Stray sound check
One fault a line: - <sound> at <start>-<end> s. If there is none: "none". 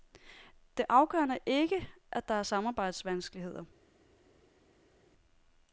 none